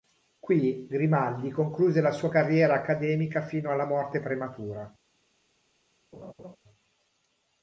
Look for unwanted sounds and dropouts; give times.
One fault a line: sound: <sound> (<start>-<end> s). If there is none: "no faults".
sound: laugh (6.1-6.6 s)